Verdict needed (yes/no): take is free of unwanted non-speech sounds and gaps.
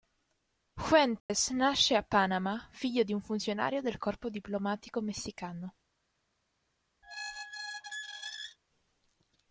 no